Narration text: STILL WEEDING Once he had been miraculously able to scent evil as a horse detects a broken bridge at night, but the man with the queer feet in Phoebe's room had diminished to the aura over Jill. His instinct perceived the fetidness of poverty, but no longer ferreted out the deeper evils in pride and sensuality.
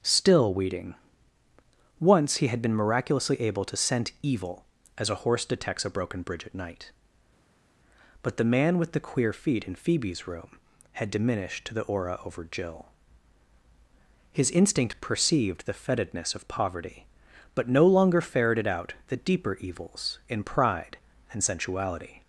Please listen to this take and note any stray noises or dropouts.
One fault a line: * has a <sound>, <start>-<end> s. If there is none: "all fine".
all fine